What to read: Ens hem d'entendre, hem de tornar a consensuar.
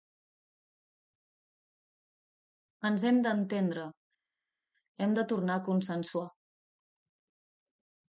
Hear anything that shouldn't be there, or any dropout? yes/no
no